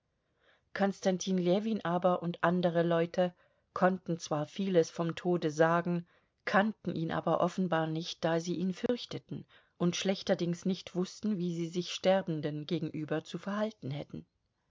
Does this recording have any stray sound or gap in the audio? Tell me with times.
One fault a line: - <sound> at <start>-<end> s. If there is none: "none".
- dropout at 8.9-8.9 s